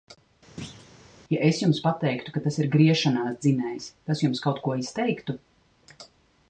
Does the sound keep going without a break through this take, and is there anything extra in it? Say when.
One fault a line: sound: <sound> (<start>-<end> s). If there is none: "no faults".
sound: thud (0.6-0.9 s)